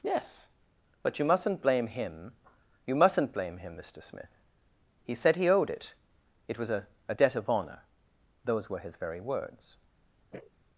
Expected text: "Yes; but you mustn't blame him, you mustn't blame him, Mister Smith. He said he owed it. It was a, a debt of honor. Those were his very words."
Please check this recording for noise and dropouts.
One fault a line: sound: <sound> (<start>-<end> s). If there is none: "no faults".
sound: sniff (10.3-10.5 s)